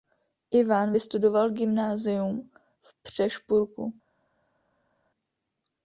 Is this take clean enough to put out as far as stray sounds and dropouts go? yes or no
yes